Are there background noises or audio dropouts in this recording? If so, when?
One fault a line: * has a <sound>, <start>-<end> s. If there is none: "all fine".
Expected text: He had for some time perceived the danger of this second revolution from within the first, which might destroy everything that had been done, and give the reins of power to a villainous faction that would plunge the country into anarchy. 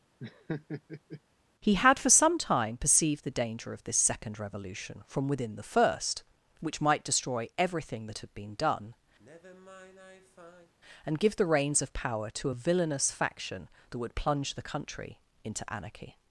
* has a laugh, 0.2-1.2 s
* has a sigh, 9.2-10.7 s